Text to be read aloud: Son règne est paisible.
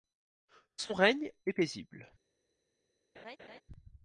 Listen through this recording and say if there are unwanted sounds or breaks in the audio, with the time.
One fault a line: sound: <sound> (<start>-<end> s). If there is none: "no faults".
sound: laugh (3.1-3.6 s)